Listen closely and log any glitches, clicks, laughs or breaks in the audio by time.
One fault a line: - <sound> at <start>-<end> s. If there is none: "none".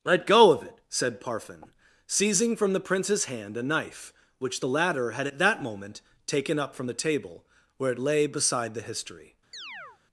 - chirp at 9.5-10.0 s